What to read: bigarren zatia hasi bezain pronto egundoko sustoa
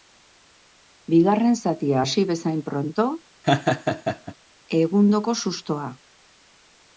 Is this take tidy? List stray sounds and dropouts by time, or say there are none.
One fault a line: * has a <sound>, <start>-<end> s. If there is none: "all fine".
* has a laugh, 3.4-4.3 s